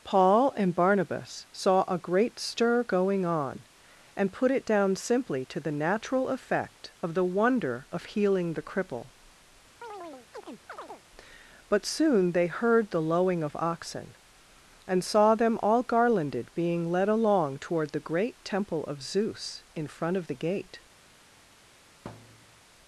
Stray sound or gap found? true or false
true